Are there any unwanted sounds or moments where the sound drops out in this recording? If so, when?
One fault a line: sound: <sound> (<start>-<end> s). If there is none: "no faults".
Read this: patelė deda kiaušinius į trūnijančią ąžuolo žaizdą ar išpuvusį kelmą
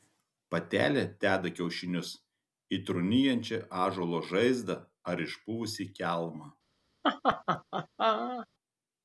sound: laugh (7.0-8.5 s)